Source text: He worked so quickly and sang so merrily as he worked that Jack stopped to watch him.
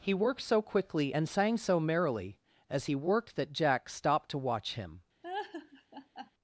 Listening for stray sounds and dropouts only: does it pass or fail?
fail